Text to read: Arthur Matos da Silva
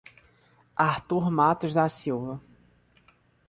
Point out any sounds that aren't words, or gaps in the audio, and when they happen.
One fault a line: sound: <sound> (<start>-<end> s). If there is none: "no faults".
no faults